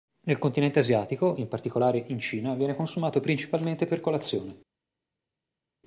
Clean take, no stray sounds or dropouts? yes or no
yes